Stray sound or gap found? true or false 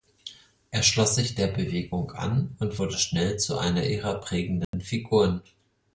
true